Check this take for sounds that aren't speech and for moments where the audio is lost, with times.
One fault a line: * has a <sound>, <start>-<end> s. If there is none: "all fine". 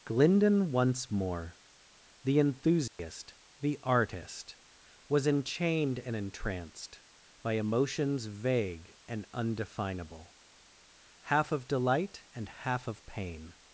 * has a dropout, 2.9-3.0 s